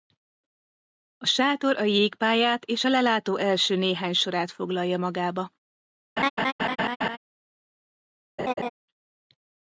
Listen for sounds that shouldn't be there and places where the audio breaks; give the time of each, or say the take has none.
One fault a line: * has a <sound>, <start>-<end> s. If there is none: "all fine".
* has a laugh, 6.2-7.2 s
* has a laugh, 8.4-8.7 s